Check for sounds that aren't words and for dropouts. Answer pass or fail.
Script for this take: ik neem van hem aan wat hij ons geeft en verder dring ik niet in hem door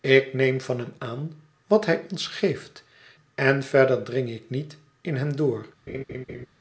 fail